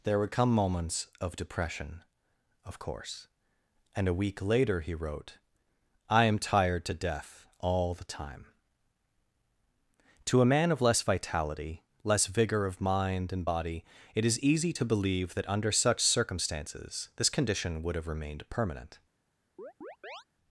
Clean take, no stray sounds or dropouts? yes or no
no